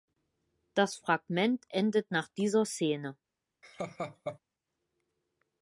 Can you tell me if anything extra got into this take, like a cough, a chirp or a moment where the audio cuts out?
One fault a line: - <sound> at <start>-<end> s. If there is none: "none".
- laugh at 3.6-4.4 s